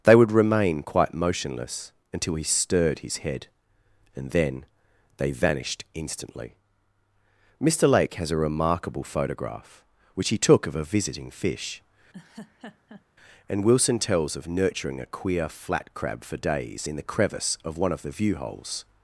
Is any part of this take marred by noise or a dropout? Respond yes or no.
yes